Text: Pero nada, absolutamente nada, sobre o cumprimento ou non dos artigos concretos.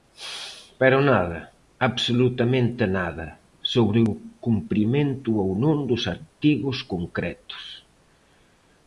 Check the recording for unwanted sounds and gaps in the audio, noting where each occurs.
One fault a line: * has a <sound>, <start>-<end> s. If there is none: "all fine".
all fine